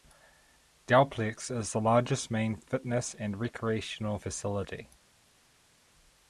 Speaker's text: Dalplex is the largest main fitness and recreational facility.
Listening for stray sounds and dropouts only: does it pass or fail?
pass